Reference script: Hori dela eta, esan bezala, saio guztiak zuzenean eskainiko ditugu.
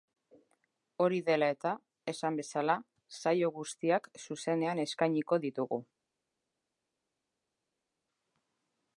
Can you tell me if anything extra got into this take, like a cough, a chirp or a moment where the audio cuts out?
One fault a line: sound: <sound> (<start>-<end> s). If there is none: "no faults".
no faults